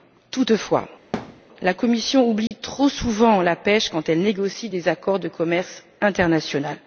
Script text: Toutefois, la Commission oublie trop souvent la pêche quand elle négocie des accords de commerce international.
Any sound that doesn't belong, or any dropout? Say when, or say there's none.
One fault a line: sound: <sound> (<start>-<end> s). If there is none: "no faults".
sound: thud (1.1-1.4 s)
sound: dropout (2.5-2.5 s)